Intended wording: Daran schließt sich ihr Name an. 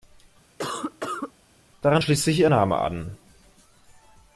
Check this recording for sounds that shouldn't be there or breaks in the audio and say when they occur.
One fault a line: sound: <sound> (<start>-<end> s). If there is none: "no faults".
sound: cough (0.6-1.3 s)